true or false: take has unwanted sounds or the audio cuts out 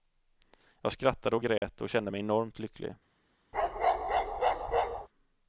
true